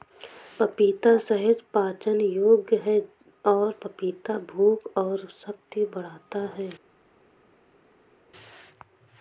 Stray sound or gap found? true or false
false